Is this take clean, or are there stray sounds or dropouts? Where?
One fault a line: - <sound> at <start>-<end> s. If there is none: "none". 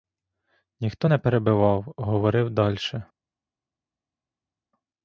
none